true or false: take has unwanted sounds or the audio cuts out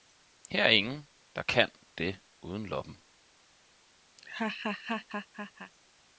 true